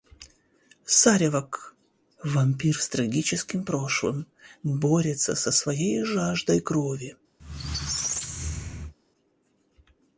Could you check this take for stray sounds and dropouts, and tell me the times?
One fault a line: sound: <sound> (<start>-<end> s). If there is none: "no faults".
sound: squeak (7.4-8.9 s)